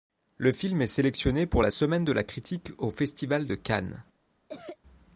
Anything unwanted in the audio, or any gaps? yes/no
yes